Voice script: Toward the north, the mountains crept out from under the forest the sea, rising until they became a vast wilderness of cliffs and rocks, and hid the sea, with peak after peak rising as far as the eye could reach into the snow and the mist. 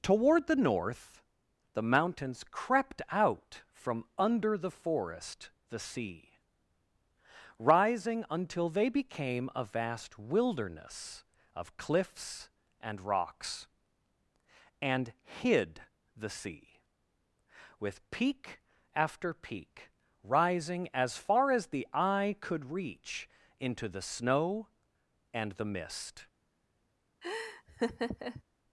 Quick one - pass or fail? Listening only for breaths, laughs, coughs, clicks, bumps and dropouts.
fail